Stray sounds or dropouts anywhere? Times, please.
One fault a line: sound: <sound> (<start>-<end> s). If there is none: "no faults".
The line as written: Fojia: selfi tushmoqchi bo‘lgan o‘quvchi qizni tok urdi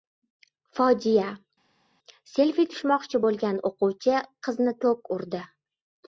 no faults